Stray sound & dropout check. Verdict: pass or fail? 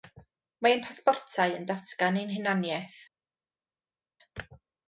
pass